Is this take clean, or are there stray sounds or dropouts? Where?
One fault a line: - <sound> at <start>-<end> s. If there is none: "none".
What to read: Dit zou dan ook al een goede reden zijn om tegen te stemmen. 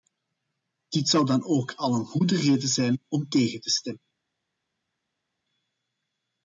none